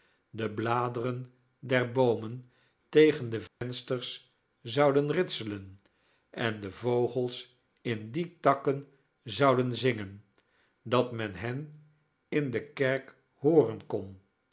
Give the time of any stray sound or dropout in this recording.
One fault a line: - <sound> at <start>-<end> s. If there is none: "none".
- dropout at 3.5-3.6 s